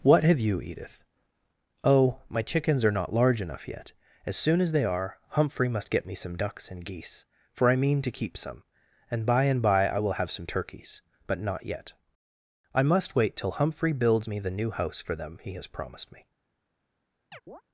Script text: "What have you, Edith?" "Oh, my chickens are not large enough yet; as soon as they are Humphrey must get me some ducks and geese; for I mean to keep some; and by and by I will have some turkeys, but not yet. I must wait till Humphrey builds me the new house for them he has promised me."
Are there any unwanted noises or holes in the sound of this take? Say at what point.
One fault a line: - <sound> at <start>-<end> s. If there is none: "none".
- chirp at 17.3-17.6 s